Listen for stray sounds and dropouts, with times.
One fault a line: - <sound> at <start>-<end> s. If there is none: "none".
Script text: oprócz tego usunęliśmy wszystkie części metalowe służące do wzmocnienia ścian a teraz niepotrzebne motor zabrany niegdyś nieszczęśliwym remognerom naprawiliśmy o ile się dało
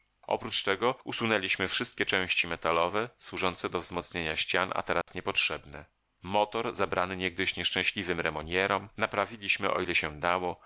- dropout at 5.0-5.1 s